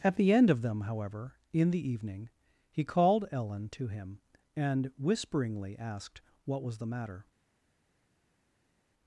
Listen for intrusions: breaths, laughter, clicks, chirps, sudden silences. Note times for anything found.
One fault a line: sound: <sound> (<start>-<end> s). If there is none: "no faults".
no faults